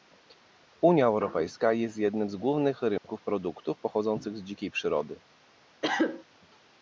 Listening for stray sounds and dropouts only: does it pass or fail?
fail